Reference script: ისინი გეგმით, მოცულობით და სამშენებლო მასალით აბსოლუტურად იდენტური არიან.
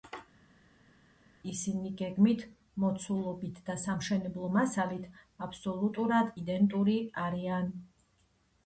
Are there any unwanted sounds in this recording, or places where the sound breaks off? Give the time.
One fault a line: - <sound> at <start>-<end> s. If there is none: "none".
none